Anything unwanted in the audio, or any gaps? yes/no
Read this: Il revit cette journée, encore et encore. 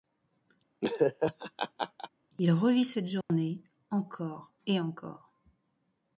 yes